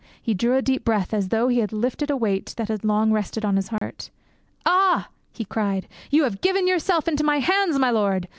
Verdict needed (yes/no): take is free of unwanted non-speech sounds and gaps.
no